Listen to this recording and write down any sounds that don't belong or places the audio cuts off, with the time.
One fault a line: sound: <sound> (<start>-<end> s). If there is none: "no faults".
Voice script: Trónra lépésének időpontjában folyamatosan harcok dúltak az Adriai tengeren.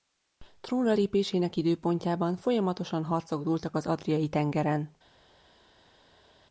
no faults